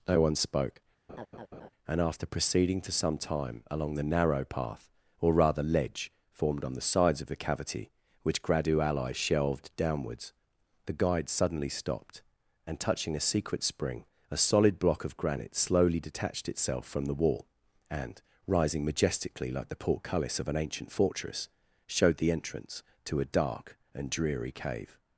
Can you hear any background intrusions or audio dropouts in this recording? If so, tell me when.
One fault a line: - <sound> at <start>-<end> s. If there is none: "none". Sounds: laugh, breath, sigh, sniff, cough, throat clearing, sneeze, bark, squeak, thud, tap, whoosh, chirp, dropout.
- laugh at 1.1-1.7 s